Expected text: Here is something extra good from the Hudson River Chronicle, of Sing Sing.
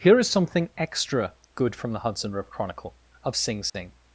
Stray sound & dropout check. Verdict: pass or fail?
fail